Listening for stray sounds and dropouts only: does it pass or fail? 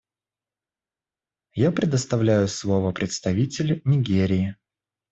pass